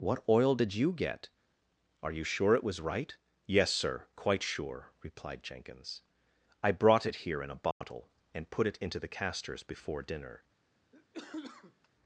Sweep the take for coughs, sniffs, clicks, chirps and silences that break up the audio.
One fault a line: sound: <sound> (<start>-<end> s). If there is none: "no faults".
sound: dropout (7.7-7.8 s)
sound: cough (10.9-11.9 s)